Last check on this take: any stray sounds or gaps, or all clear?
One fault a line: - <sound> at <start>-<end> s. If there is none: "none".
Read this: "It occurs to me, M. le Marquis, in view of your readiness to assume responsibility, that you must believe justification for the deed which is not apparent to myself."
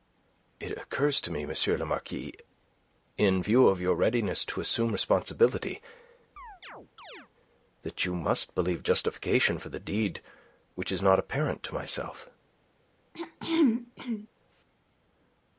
- chirp at 6.4-7.3 s
- throat clearing at 13.1-14.3 s